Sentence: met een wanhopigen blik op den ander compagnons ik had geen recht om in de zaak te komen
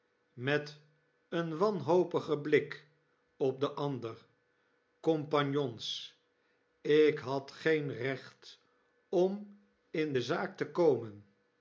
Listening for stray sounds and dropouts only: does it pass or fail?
pass